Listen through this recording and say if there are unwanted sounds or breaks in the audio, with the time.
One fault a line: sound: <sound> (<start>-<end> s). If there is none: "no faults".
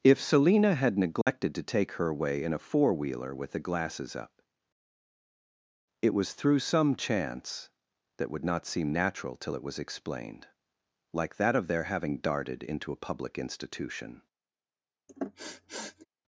sound: dropout (1.2-1.3 s)
sound: sniff (15.1-16.1 s)